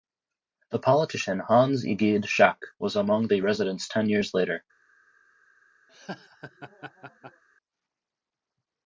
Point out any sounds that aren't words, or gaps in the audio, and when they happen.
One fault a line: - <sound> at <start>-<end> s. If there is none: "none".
- laugh at 5.9-7.4 s